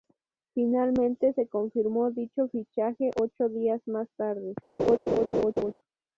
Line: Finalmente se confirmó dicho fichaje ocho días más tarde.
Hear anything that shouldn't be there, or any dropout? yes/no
yes